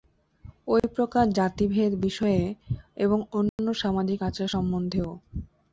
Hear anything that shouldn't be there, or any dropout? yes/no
yes